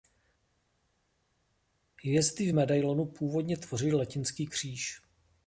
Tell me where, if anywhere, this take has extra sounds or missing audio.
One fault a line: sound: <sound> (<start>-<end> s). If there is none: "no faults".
no faults